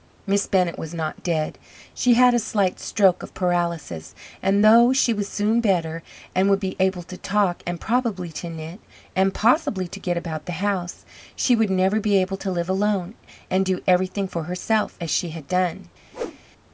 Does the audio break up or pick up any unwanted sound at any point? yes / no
yes